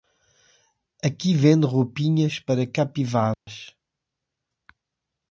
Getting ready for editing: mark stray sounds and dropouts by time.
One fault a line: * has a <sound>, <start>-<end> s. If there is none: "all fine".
* has a dropout, 3.3-3.5 s